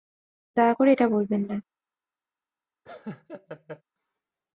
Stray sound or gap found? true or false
true